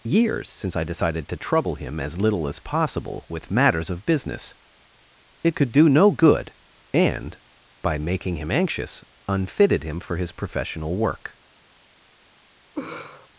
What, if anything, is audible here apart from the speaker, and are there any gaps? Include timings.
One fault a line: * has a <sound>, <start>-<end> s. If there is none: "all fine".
* has a laugh, 12.8-13.3 s